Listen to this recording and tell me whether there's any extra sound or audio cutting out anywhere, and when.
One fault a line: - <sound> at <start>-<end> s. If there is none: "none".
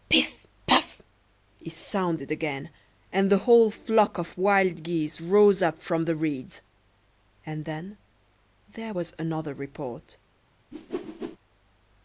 - whoosh at 10.7-11.4 s